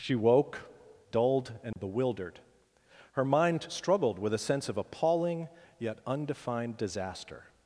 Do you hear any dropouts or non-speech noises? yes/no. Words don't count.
yes